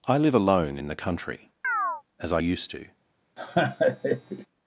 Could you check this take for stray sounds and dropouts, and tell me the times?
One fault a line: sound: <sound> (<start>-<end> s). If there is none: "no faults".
sound: chirp (1.6-2.0 s)
sound: laugh (3.4-4.5 s)